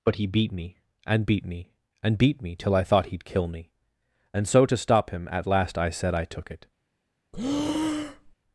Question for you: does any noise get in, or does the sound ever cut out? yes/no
yes